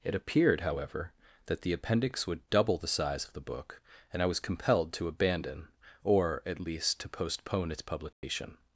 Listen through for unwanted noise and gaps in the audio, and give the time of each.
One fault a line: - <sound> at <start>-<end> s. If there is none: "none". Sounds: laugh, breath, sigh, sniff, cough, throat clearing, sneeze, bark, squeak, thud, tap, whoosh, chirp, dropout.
- dropout at 8.1-8.2 s